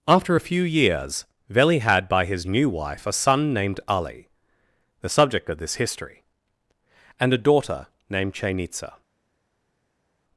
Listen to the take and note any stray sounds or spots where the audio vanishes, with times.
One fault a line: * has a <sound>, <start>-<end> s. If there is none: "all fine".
all fine